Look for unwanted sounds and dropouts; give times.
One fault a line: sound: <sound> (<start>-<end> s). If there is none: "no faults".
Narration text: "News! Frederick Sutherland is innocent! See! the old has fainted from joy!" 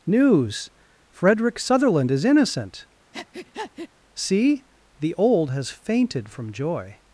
sound: breath (3.1-3.9 s)